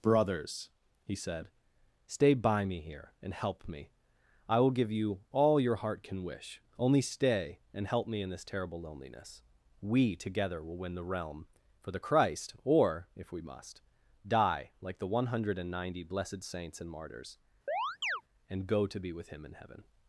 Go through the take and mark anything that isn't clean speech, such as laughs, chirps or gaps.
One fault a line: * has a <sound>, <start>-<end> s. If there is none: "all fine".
* has a chirp, 17.7-18.2 s